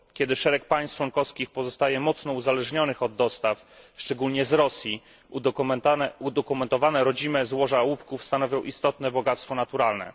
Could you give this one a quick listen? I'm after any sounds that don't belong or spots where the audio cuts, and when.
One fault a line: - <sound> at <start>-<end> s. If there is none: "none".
none